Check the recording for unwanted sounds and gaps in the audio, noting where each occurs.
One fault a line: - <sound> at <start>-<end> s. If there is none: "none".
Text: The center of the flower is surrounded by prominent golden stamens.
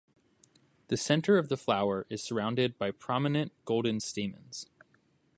none